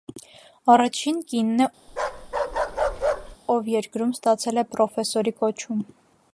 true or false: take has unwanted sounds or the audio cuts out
true